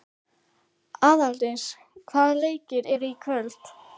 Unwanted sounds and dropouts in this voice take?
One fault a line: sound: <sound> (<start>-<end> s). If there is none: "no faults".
no faults